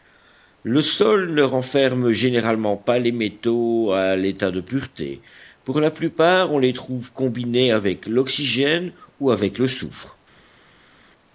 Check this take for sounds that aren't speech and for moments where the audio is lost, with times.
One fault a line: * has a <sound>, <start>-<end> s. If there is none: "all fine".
all fine